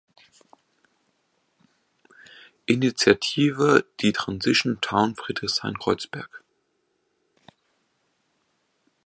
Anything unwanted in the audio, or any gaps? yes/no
no